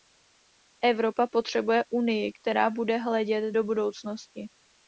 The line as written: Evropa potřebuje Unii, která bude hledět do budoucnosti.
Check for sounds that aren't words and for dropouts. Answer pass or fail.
pass